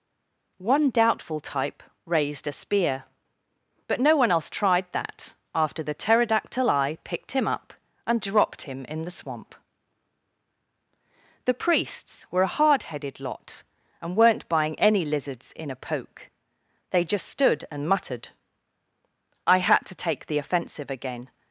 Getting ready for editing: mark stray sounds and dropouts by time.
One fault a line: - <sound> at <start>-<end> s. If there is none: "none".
none